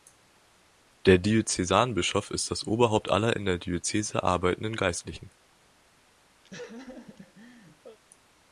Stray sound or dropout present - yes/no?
yes